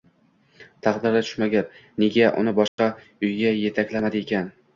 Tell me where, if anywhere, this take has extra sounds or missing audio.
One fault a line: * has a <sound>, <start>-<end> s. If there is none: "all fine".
* has a dropout, 2.7-2.8 s